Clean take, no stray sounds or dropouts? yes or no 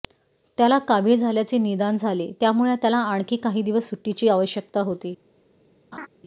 no